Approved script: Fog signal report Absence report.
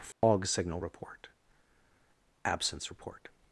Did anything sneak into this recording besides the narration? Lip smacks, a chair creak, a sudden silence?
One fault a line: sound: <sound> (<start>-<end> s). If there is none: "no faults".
sound: dropout (0.1-0.2 s)